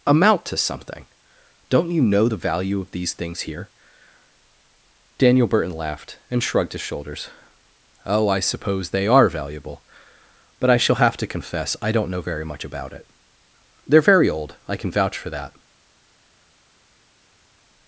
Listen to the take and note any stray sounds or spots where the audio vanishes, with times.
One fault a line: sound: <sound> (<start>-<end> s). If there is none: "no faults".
no faults